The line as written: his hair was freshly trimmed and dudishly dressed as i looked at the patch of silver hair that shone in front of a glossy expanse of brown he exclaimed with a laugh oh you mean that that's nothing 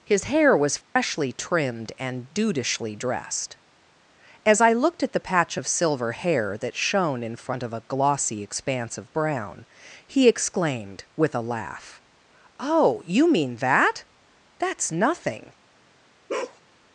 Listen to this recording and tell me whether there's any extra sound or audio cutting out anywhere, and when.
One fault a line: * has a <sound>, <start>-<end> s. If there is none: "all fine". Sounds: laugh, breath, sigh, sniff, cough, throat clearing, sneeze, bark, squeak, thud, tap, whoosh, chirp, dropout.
* has a dropout, 0.8-1.0 s
* has a bark, 16.3-16.6 s